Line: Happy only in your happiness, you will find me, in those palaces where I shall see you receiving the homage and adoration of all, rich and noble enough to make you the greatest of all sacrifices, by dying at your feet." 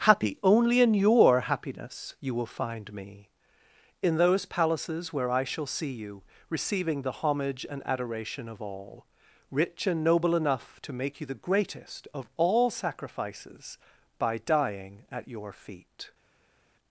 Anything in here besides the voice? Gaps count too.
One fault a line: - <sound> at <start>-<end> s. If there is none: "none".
none